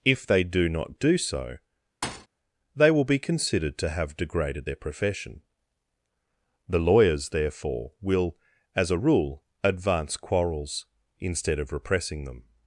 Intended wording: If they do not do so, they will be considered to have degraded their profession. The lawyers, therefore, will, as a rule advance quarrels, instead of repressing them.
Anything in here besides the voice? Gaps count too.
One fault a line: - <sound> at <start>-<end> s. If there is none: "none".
- thud at 2.0-2.3 s